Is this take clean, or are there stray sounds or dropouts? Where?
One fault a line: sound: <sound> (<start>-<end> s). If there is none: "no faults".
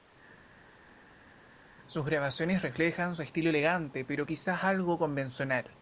no faults